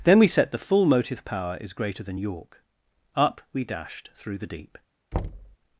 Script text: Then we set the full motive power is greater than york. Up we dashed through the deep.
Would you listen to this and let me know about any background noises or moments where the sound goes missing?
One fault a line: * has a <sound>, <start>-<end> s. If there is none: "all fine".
* has a thud, 5.1-5.6 s